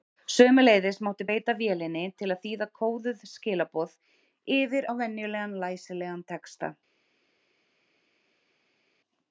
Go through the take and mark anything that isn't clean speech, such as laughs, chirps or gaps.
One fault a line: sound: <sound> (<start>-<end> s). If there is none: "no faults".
no faults